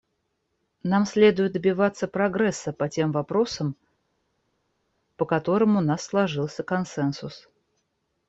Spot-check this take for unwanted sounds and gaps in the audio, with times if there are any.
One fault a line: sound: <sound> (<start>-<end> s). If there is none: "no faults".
no faults